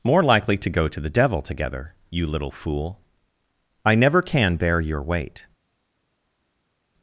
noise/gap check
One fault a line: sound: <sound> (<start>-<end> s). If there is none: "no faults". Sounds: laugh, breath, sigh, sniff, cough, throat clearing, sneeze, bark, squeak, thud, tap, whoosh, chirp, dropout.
no faults